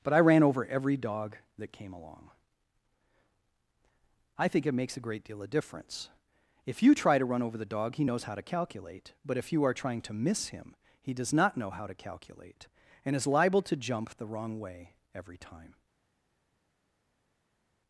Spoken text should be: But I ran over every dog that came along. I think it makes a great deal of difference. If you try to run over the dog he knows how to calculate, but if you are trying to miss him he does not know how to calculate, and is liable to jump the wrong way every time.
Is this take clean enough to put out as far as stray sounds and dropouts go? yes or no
yes